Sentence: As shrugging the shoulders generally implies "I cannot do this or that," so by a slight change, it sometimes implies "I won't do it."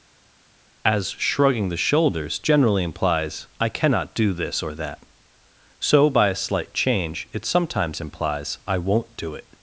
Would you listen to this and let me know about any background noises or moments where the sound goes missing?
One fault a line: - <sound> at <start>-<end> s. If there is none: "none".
none